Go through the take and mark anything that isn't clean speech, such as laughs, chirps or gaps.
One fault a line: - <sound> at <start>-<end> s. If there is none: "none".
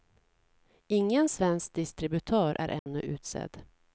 - dropout at 2.8-2.9 s